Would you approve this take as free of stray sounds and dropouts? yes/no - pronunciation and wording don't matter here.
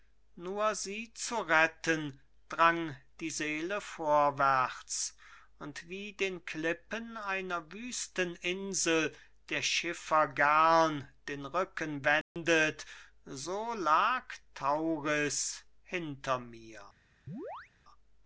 no